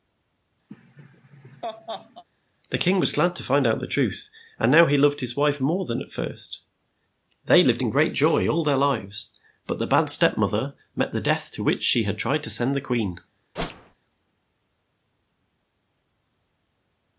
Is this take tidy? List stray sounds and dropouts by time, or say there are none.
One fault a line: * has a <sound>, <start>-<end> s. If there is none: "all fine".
* has a laugh, 0.7-2.2 s
* has a whoosh, 13.6-14.0 s